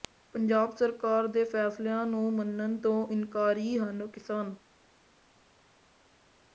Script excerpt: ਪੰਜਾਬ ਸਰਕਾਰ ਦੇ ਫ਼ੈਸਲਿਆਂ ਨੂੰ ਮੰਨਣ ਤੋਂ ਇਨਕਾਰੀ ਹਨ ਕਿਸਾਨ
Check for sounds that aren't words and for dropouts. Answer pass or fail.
pass